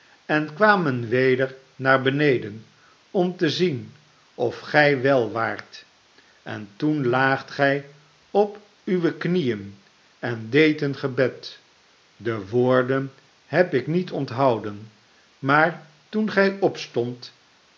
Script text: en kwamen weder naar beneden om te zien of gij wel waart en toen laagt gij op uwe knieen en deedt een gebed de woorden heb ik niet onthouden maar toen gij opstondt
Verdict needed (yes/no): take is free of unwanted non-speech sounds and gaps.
yes